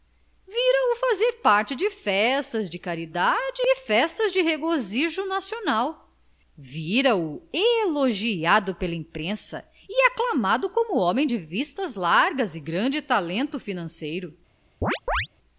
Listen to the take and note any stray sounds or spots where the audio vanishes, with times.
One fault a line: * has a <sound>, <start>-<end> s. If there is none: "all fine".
* has a chirp, 14.8-15.3 s